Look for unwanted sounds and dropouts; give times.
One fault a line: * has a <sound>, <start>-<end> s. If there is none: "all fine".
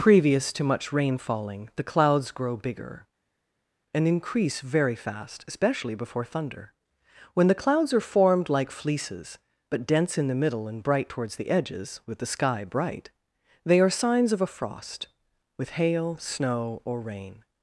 all fine